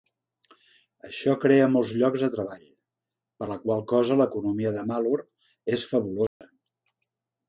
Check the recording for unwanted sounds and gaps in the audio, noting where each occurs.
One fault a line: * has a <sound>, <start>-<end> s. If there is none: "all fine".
* has a dropout, 6.3-6.4 s